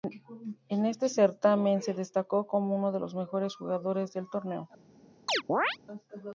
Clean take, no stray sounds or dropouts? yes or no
no